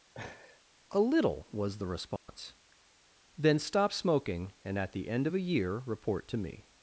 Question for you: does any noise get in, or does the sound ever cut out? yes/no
yes